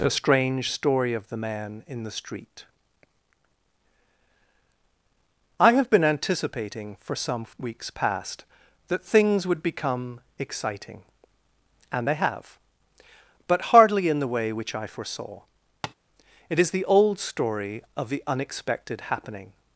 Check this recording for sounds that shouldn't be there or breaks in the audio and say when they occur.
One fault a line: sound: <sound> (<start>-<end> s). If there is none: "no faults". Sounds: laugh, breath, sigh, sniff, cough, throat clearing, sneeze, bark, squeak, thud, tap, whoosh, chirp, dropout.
sound: tap (15.8-15.9 s)